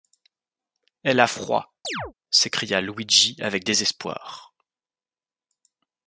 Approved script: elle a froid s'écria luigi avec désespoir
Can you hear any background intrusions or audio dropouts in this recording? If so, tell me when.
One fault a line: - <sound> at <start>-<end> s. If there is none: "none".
- chirp at 1.8-2.1 s